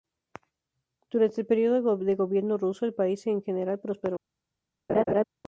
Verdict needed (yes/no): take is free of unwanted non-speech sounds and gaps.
no